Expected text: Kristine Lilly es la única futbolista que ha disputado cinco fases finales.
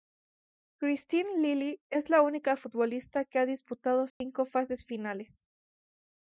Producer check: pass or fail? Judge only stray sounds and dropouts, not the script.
fail